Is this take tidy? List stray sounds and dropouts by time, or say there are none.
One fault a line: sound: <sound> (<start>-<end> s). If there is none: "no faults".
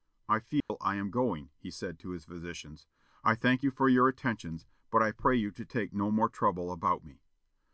sound: dropout (0.6-0.7 s)